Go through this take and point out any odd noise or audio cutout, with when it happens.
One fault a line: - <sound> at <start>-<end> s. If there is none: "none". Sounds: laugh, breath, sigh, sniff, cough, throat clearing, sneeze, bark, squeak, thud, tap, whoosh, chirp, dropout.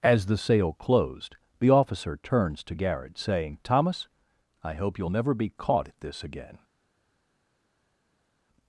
none